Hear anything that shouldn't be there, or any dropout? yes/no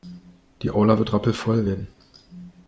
no